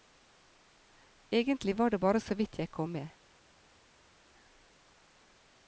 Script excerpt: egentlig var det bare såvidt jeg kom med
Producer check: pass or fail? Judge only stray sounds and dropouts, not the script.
pass